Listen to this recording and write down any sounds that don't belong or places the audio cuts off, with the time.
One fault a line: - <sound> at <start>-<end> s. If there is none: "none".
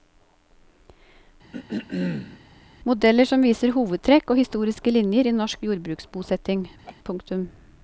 - throat clearing at 1.5-2.4 s
- laugh at 6.8-7.0 s